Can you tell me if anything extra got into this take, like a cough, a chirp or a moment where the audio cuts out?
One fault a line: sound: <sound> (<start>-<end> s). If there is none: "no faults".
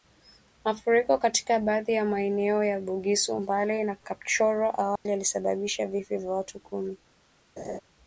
sound: dropout (5.0-5.1 s)
sound: laugh (7.6-7.8 s)